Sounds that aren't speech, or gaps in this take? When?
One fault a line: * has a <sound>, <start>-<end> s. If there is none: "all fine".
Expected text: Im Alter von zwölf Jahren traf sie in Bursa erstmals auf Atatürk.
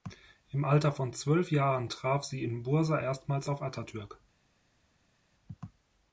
all fine